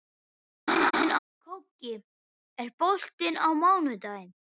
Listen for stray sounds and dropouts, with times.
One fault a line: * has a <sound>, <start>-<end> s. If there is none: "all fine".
* has a laugh, 0.7-1.2 s